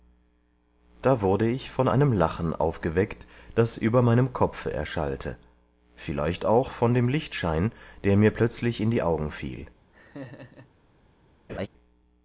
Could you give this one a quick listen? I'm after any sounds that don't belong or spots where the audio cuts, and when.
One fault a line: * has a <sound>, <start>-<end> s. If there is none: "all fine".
* has a laugh, 9.9-10.7 s
* has a laugh, 11.5-11.7 s